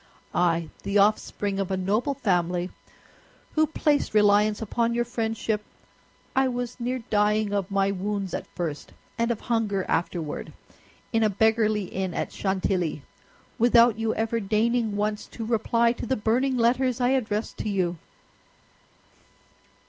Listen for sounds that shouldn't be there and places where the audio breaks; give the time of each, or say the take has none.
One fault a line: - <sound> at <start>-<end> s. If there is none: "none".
none